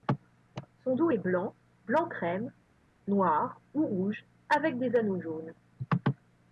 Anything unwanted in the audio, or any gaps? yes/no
no